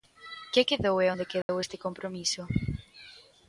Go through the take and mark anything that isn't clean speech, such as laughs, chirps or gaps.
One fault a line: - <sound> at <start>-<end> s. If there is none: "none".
- dropout at 1.4-1.5 s